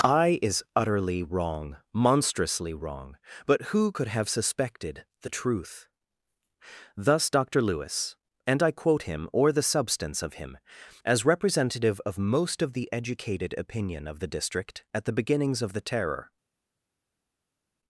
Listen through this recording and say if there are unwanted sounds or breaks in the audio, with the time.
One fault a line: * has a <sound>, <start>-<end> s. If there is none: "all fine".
all fine